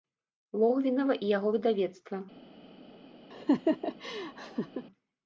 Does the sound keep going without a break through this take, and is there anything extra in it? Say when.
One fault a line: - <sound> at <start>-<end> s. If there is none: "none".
- laugh at 3.3-4.9 s